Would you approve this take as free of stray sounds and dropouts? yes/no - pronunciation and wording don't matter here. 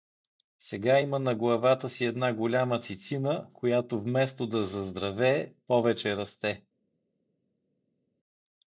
yes